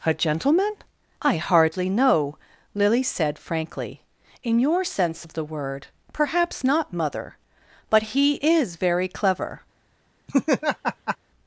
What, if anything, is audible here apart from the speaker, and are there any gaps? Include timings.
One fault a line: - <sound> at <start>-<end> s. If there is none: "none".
- laugh at 10.3-11.2 s